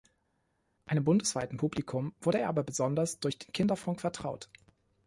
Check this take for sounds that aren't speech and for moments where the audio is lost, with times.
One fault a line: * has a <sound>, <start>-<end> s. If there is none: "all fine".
all fine